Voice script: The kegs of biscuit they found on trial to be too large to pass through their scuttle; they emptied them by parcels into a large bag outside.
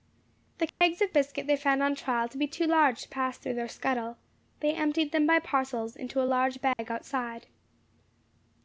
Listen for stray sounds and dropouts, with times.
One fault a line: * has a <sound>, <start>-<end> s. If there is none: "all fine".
* has a dropout, 0.7-0.8 s
* has a dropout, 6.7-6.8 s